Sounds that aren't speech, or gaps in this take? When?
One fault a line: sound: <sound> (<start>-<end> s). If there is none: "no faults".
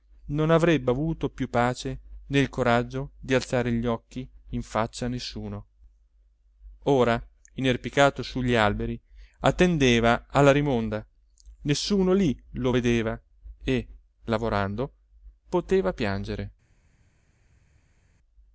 no faults